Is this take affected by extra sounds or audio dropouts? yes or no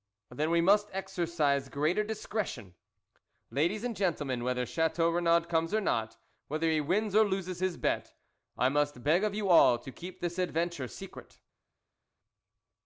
no